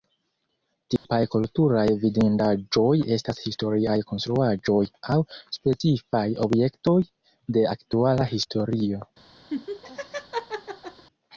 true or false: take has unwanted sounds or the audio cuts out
true